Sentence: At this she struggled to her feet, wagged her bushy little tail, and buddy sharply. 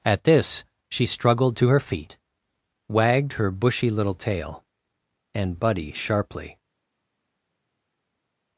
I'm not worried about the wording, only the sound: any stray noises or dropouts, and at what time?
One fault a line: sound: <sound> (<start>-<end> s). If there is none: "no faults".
no faults